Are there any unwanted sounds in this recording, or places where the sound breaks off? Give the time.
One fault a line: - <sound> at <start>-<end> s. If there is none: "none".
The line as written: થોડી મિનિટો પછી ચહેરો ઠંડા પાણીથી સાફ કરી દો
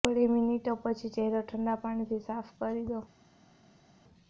none